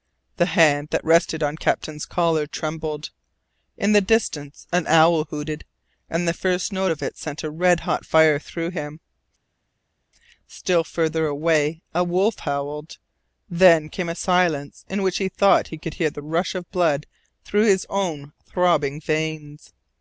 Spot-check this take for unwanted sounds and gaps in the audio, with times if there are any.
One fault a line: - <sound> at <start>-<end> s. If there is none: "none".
none